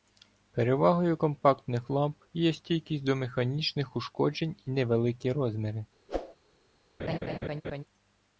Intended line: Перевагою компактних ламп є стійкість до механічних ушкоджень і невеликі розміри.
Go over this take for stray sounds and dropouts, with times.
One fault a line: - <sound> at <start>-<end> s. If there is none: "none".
- whoosh at 6.1-6.4 s
- laugh at 7.0-7.8 s